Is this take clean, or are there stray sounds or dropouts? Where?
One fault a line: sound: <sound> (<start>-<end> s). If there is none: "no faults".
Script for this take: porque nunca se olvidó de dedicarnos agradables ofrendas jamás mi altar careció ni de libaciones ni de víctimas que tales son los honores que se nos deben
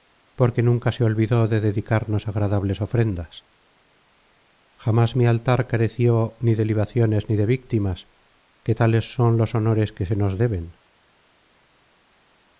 no faults